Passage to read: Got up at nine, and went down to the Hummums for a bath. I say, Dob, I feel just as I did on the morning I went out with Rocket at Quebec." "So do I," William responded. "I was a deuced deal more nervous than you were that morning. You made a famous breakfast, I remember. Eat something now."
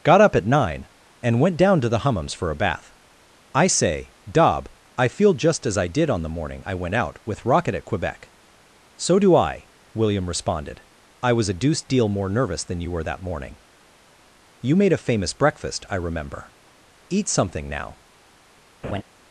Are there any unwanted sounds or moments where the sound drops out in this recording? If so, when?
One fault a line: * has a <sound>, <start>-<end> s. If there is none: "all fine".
* has a laugh, 18.8-19.0 s